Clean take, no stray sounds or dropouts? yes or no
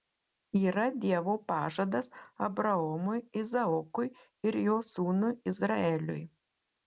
yes